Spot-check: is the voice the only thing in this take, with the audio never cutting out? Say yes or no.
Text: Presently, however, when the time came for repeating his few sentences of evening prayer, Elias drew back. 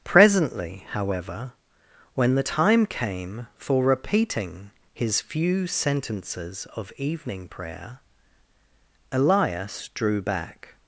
yes